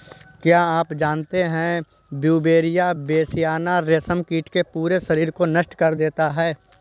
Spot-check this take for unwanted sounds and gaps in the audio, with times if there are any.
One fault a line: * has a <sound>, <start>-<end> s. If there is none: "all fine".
all fine